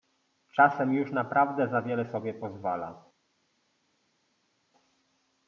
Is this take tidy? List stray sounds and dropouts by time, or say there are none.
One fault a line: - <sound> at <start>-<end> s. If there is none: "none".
none